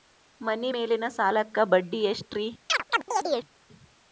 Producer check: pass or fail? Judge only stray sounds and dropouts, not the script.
fail